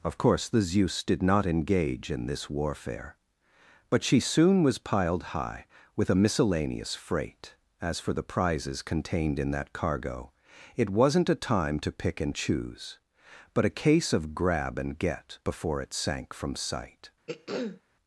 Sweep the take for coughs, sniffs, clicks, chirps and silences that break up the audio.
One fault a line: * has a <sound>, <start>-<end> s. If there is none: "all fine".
* has a throat clearing, 17.3-17.8 s